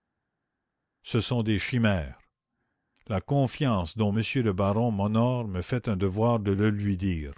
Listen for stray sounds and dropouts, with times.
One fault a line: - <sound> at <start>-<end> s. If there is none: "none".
none